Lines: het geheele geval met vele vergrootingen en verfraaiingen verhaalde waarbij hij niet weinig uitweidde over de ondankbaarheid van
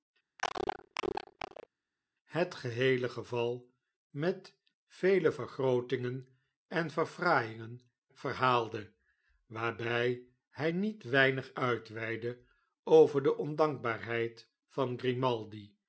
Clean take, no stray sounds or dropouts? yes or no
no